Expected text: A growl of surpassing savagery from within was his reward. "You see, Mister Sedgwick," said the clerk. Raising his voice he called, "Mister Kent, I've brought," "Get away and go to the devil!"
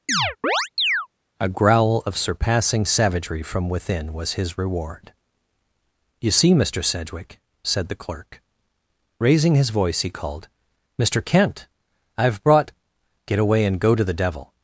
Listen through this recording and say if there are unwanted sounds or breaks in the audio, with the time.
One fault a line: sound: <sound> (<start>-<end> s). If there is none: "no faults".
sound: chirp (0.1-1.1 s)